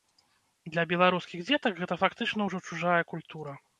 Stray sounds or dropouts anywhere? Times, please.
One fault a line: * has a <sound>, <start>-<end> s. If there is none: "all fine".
all fine